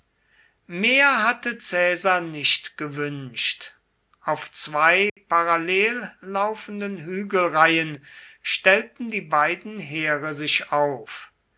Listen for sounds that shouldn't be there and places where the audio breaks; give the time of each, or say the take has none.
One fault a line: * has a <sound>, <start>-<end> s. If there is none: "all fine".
* has a dropout, 5.1-5.2 s